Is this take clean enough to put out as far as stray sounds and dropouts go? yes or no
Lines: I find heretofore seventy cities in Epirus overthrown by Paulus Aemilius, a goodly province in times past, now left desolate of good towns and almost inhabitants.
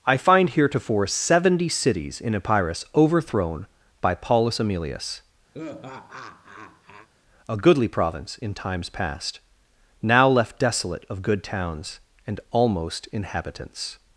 no